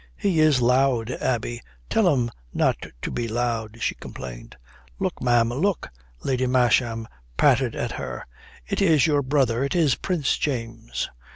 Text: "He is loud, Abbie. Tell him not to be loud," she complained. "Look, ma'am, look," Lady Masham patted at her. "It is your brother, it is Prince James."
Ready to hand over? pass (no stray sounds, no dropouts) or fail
pass